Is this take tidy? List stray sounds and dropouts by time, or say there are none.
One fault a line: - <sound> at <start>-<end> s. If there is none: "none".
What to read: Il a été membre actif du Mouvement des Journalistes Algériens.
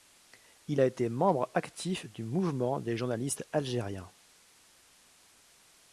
none